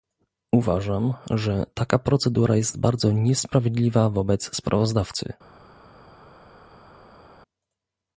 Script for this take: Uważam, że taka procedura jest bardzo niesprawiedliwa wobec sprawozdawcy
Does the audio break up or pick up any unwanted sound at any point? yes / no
no